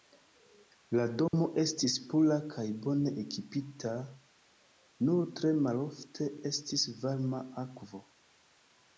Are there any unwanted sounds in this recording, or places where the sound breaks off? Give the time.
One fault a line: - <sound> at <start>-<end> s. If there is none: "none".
- dropout at 1.3-1.3 s